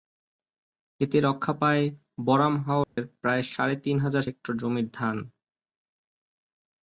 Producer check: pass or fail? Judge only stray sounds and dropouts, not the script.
fail